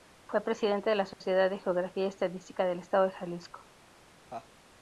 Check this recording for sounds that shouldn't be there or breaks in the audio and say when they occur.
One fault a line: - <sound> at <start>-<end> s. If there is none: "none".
- dropout at 1.1-1.2 s
- laugh at 4.3-4.5 s